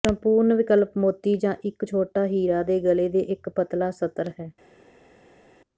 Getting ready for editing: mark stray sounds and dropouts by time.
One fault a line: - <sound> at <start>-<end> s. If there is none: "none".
none